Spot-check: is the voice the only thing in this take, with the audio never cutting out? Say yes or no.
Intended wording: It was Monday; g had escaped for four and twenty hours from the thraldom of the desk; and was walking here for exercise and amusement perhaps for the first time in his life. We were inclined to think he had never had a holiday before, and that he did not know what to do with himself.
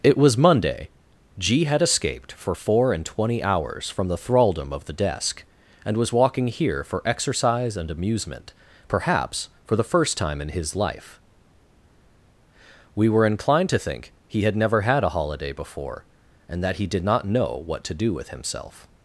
yes